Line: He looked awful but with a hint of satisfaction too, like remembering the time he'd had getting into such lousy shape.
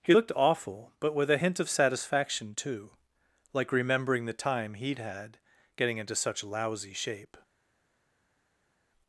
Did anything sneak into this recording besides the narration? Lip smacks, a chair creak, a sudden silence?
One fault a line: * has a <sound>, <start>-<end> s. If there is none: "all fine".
all fine